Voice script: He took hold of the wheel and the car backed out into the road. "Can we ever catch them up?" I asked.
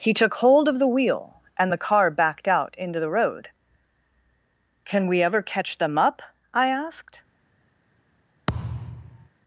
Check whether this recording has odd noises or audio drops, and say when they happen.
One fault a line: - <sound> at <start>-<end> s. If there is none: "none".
- thud at 8.5-9.3 s